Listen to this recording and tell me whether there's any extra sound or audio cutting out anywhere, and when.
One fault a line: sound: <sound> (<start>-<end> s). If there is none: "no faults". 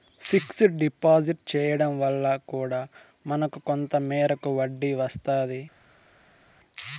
no faults